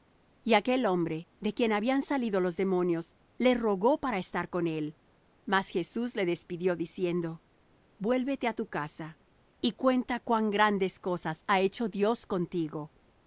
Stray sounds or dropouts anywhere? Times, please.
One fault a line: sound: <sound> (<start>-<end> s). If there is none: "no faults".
no faults